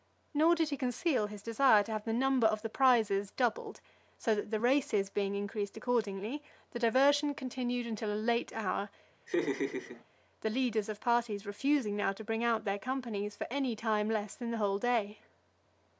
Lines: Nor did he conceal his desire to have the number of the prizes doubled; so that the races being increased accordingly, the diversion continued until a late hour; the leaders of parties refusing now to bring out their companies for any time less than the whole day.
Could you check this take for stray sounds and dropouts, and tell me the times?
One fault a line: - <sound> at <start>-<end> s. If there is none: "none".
- laugh at 9.3-10.0 s